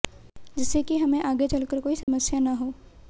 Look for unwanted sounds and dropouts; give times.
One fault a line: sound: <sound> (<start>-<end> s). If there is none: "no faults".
sound: dropout (2.0-2.1 s)